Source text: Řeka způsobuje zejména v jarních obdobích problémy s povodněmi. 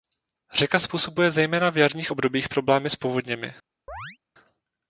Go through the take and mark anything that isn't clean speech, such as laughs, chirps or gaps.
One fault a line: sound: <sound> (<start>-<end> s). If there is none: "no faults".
sound: chirp (3.9-4.2 s)